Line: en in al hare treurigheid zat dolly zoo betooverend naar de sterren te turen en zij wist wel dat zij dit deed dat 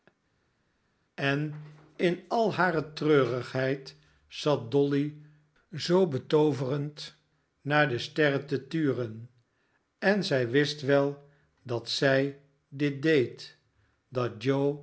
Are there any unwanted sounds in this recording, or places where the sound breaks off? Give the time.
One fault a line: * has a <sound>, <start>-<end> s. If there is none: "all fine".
all fine